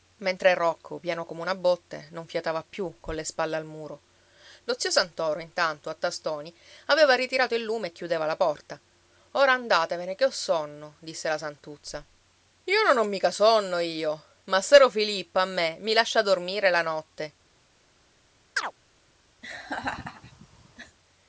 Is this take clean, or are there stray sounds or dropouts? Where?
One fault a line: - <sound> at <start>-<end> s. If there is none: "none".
- chirp at 18.6-18.7 s
- laugh at 19.4-21.0 s